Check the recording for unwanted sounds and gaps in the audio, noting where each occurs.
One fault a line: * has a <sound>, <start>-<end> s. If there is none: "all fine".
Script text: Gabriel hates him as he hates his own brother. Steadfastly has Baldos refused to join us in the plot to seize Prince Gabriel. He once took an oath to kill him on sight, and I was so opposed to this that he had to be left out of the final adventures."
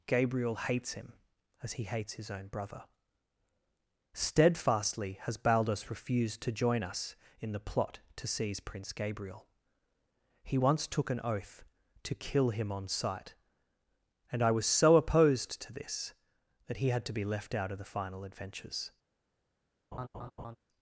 * has a laugh, 19.9-20.6 s